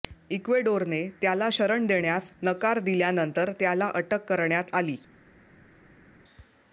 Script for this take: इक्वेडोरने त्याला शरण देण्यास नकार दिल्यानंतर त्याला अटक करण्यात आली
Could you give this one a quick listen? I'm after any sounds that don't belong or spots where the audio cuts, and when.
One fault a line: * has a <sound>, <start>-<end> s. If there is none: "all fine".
all fine